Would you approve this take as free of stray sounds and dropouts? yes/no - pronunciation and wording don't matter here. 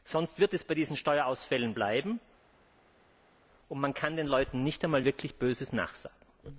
yes